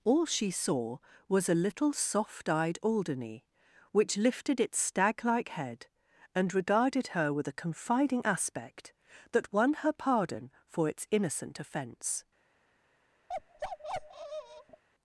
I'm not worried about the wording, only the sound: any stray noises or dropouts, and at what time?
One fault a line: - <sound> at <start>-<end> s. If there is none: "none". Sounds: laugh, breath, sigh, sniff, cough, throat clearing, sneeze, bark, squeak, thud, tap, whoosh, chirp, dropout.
- bark at 13.3-14.8 s